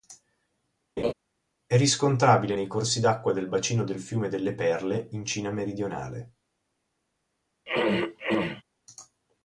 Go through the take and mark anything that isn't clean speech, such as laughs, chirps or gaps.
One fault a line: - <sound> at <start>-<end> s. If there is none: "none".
- laugh at 1.0-1.1 s
- throat clearing at 7.7-8.6 s